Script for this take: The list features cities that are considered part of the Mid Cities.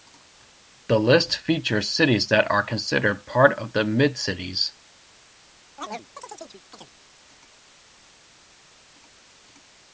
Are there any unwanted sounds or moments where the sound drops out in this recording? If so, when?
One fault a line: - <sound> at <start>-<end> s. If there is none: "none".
- chirp at 5.8-6.9 s